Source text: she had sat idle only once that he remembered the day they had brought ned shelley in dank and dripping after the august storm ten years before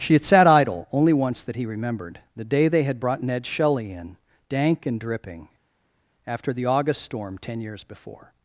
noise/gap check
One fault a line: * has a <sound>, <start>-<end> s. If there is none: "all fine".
all fine